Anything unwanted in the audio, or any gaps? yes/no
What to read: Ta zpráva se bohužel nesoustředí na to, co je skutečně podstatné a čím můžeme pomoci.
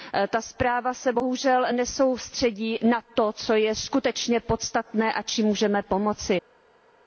no